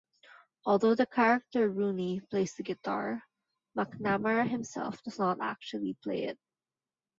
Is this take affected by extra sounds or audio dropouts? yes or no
no